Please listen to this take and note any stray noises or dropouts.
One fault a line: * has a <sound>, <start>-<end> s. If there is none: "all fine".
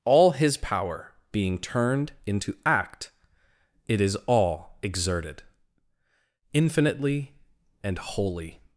all fine